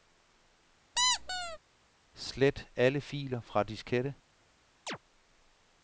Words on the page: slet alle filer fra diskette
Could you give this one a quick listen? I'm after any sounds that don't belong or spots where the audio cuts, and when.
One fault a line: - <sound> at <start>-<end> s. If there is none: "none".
- squeak at 1.0-1.6 s
- chirp at 4.9-5.0 s